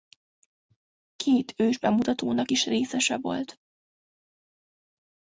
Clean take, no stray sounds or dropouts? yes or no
yes